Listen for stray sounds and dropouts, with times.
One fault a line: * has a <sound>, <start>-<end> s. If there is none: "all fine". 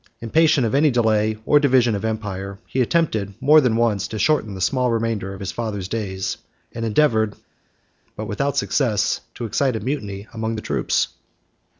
all fine